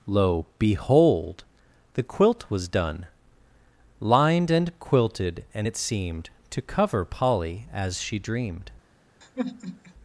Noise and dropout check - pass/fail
fail